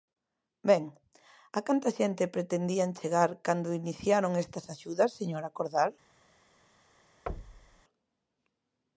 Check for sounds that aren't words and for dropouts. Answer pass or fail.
fail